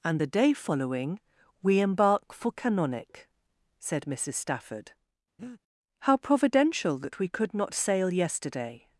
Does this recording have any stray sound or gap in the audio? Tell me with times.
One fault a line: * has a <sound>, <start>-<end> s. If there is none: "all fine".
* has a breath, 5.4-5.6 s